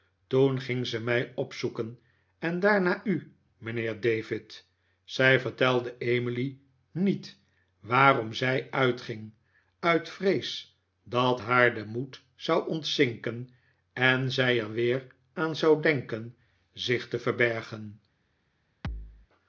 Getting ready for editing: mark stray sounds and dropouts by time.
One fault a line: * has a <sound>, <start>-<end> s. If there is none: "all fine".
* has a thud, 18.8-19.3 s